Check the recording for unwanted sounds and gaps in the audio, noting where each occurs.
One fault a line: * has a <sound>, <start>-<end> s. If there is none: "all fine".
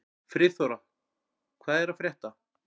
all fine